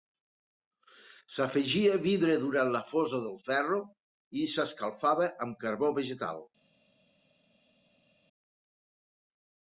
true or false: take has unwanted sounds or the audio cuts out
false